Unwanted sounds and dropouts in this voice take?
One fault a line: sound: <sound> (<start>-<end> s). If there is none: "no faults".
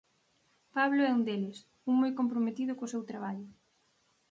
no faults